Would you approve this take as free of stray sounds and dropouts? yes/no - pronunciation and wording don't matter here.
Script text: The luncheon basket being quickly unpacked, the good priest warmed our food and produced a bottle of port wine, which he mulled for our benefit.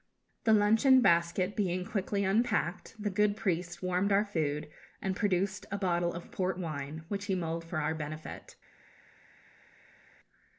yes